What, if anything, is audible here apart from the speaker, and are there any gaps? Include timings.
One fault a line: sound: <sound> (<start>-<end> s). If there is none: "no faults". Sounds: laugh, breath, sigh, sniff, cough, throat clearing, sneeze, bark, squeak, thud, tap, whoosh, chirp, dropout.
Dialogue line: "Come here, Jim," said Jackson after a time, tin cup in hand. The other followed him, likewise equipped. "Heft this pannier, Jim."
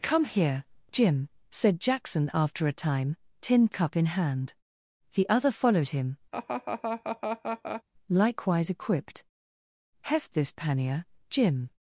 sound: laugh (6.3-7.8 s)